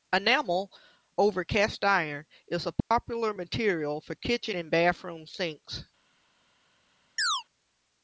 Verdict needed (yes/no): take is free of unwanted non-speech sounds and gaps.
no